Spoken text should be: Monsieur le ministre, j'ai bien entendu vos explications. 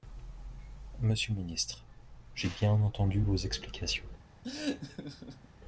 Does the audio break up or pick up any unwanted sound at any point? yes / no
yes